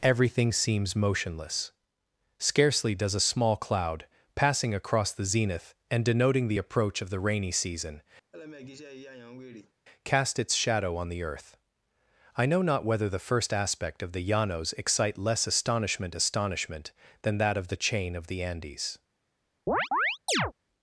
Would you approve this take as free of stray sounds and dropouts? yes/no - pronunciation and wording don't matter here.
no